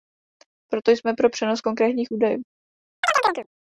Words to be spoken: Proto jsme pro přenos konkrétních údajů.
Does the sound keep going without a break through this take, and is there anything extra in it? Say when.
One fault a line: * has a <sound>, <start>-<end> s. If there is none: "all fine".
* has a chirp, 3.0-3.5 s